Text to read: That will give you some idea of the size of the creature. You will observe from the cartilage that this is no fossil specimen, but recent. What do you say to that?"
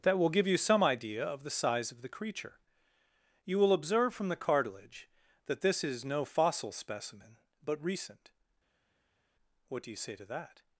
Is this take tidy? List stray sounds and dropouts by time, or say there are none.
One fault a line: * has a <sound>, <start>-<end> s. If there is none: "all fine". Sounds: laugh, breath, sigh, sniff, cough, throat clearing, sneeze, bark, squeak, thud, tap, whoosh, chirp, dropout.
all fine